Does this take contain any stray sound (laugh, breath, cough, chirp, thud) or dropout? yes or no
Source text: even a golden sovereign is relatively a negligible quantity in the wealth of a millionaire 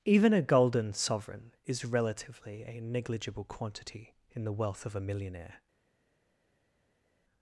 no